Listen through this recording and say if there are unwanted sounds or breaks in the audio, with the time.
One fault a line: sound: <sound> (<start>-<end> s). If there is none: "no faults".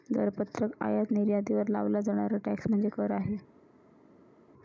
no faults